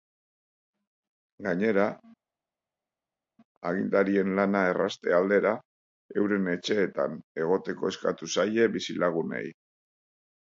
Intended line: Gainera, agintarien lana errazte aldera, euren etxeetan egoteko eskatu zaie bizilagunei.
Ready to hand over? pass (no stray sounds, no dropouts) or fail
pass